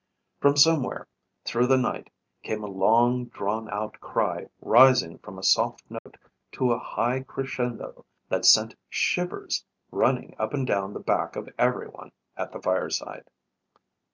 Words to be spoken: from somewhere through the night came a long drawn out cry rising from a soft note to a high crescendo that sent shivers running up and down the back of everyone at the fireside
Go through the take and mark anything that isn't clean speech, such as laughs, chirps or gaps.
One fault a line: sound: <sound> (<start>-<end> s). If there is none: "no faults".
sound: dropout (6.0-6.1 s)